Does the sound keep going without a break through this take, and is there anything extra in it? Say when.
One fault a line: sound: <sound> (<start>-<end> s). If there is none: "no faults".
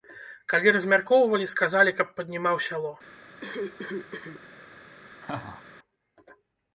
sound: cough (3.4-4.5 s)
sound: laugh (5.2-5.6 s)